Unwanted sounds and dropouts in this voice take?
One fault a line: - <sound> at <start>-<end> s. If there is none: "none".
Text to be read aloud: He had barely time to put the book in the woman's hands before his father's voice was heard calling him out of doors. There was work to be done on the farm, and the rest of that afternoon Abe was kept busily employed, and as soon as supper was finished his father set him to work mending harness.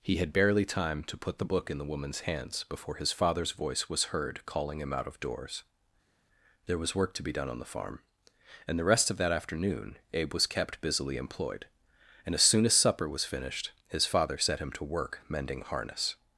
none